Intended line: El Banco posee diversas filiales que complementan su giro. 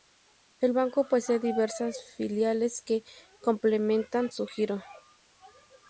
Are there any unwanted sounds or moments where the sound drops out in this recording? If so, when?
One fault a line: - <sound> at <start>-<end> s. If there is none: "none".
none